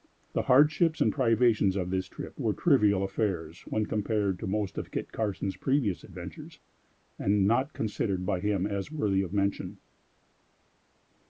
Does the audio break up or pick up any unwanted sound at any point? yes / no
no